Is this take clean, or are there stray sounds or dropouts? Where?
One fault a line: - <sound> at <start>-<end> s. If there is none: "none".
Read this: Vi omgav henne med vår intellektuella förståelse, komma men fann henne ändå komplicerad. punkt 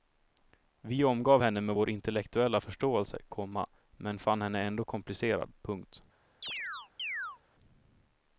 - chirp at 6.4-7.4 s